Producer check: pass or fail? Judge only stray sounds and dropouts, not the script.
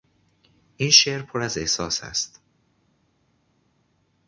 pass